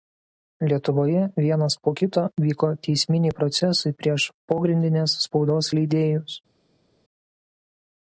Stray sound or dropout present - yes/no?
no